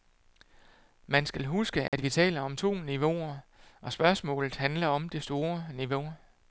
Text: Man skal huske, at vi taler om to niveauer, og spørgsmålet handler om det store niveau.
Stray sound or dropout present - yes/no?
yes